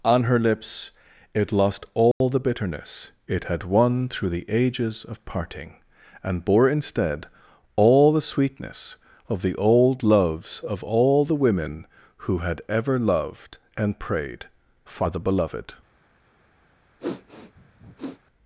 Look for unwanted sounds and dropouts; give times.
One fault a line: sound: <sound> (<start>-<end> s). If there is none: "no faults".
sound: dropout (2.1-2.2 s)
sound: sniff (17.0-18.2 s)